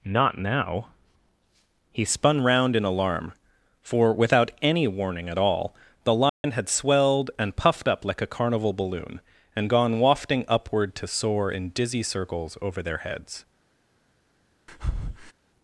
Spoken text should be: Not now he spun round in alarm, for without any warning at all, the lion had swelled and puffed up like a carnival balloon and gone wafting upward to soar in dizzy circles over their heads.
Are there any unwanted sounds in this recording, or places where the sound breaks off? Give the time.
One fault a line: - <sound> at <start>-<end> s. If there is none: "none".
- dropout at 6.3-6.4 s
- breath at 14.7-15.3 s